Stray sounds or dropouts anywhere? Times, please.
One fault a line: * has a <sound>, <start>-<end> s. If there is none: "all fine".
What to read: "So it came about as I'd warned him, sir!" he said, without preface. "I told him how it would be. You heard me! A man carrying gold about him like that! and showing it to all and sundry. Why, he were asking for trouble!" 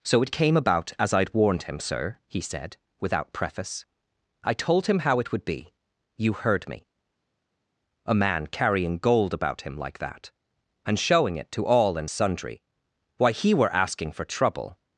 all fine